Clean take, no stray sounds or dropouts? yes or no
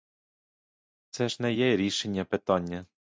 yes